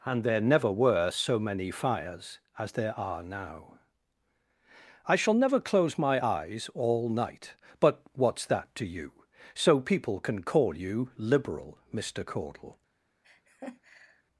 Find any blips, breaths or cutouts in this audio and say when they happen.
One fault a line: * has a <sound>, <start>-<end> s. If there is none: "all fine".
* has a laugh, 13.2-14.2 s